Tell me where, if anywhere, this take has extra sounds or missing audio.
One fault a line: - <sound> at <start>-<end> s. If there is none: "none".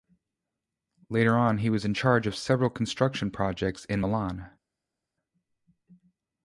none